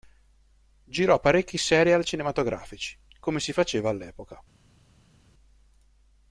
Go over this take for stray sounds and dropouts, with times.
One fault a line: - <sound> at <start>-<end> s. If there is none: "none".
none